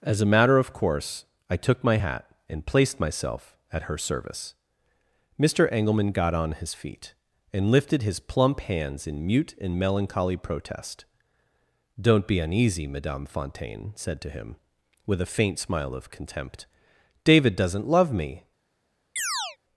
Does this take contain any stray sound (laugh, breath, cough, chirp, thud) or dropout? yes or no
yes